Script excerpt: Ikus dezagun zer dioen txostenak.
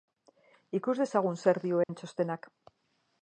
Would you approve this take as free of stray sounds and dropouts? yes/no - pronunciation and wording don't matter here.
no